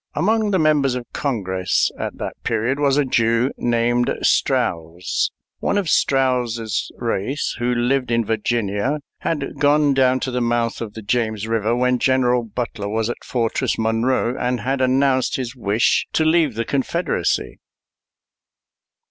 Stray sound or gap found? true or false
false